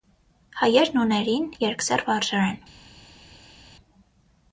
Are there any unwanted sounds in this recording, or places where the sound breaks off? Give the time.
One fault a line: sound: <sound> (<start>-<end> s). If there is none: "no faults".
no faults